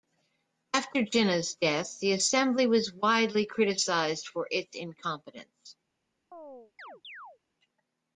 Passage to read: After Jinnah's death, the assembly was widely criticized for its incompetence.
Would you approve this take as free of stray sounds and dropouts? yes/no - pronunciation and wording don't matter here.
no